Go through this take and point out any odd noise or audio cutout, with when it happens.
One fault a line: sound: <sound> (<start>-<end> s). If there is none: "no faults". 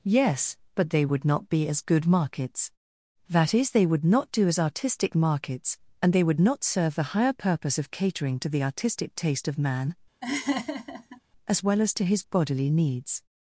sound: laugh (10.2-11.2 s)